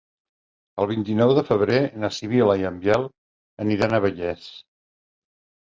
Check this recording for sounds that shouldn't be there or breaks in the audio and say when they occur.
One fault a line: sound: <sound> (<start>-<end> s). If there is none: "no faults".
no faults